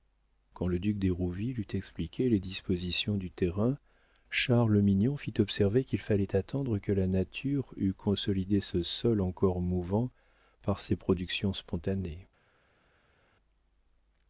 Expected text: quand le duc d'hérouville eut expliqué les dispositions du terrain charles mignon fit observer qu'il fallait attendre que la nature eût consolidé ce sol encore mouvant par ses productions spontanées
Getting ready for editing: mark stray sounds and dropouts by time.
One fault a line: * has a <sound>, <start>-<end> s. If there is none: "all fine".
all fine